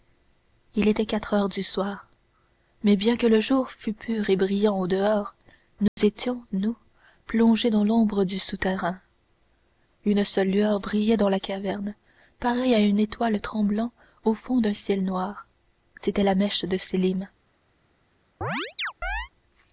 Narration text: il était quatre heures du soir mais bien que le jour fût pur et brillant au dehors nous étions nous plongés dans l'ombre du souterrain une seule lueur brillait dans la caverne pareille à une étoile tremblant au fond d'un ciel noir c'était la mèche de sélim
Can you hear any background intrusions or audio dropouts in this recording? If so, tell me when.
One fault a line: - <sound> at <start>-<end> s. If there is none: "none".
- dropout at 5.9-6.0 s
- chirp at 18.4-19.3 s